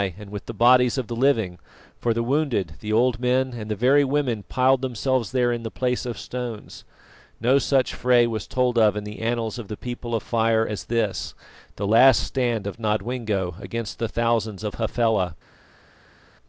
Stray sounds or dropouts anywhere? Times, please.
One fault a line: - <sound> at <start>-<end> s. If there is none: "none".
none